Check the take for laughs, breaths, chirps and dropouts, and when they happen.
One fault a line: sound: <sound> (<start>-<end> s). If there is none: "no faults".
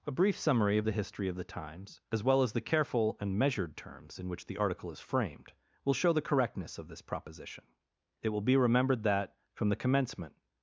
no faults